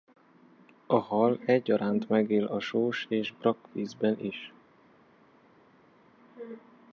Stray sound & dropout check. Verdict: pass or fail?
pass